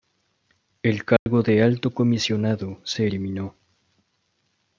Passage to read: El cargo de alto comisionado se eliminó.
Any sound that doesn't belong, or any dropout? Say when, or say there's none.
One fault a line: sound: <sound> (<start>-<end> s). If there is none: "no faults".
sound: dropout (1.2-1.3 s)